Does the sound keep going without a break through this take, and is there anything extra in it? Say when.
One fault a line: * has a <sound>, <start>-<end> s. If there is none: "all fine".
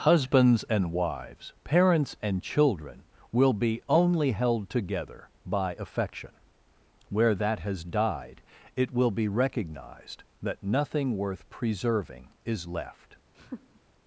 * has a laugh, 13.3-13.8 s